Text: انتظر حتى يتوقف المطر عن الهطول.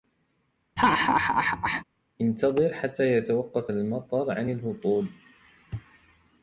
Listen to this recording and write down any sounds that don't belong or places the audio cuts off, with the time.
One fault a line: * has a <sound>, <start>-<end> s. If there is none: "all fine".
* has a laugh, 0.8-1.8 s